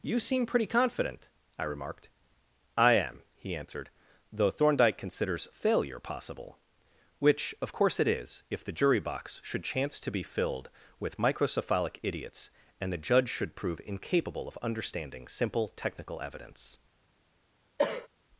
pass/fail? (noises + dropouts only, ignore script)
fail